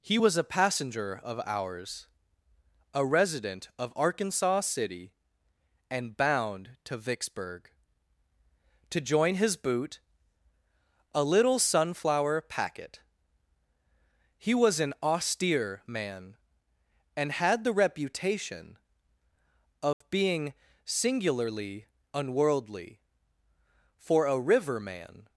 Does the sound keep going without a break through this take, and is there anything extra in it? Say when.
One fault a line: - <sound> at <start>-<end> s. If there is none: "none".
- dropout at 19.9-20.0 s